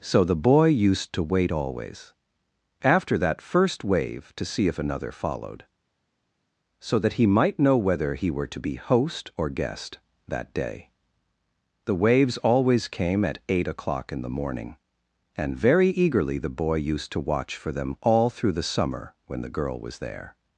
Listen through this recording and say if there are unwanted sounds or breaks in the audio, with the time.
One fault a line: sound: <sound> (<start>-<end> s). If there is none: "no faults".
no faults